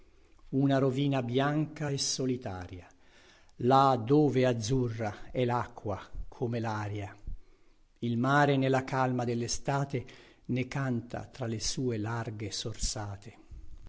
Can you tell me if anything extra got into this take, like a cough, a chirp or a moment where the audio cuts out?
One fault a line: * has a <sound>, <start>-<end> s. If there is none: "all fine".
all fine